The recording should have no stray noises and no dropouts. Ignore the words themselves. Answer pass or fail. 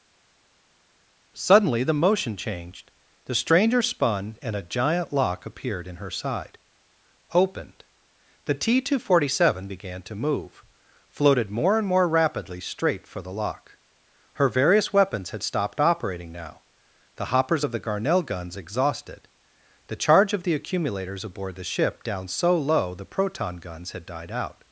pass